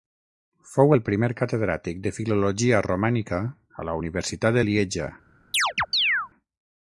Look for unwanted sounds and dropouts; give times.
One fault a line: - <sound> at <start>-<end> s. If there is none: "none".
- chirp at 5.5-6.3 s